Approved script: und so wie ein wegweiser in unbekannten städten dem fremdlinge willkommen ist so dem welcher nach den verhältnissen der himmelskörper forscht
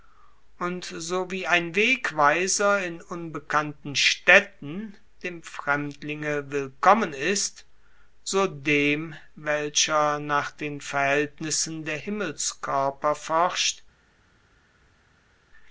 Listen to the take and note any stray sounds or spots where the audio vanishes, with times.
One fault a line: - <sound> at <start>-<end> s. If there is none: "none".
none